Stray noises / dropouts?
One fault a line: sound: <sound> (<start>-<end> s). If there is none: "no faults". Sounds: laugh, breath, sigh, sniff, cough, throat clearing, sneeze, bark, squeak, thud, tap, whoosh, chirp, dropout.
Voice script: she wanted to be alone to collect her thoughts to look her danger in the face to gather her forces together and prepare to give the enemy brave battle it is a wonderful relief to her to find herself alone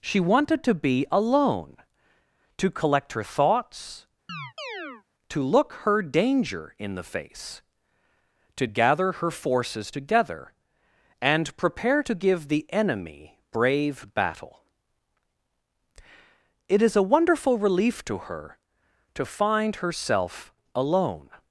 sound: chirp (4.3-5.0 s)